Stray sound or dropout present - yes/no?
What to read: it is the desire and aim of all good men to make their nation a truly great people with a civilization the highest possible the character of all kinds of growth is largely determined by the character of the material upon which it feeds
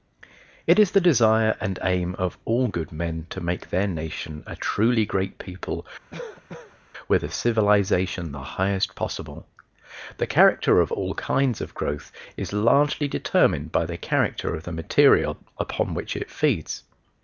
yes